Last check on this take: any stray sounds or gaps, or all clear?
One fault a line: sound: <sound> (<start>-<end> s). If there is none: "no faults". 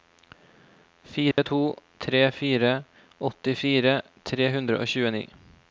sound: dropout (1.3-1.4 s)